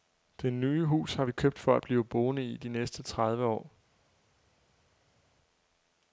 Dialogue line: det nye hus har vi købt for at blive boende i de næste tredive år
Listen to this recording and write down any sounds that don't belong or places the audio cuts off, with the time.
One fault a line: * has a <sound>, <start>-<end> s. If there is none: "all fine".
all fine